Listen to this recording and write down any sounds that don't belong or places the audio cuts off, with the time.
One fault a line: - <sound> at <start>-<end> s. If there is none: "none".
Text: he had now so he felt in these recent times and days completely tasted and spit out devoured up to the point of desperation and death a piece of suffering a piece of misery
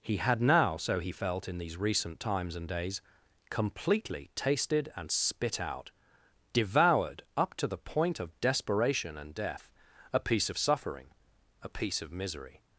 none